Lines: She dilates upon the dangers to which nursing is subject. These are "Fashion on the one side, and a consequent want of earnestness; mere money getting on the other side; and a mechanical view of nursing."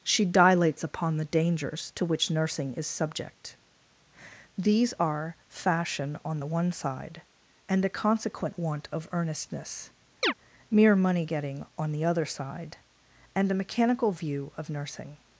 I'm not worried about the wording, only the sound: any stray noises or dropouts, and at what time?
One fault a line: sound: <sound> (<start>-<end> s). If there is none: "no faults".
sound: chirp (10.2-10.3 s)